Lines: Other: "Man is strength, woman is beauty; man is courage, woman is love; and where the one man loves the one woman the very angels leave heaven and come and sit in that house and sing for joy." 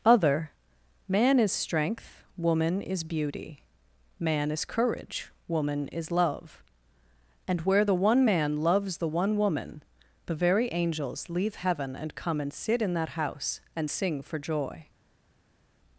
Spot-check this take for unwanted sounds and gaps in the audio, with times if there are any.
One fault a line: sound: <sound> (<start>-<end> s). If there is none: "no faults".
no faults